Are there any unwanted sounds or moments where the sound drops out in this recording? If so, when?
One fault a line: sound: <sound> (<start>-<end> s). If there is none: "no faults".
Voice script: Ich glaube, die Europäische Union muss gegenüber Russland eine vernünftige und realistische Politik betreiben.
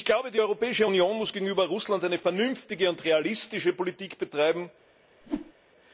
sound: whoosh (5.2-5.5 s)